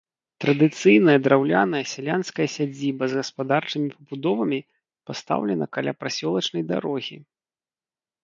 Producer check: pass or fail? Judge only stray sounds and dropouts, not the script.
pass